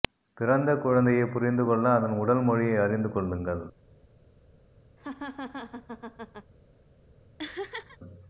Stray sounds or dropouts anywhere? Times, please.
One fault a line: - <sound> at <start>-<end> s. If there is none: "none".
- laugh at 5.0-6.5 s
- laugh at 7.4-8.0 s